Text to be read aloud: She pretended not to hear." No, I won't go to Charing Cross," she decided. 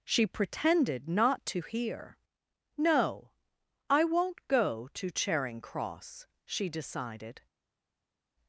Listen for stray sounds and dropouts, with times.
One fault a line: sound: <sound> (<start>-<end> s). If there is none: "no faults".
no faults